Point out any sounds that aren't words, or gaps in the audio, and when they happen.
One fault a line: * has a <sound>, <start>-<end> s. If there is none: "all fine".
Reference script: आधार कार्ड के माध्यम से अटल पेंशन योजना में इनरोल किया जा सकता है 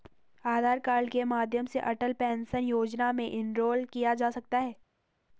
all fine